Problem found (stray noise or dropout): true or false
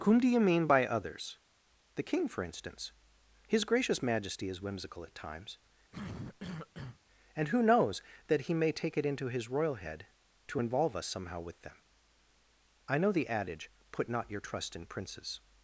true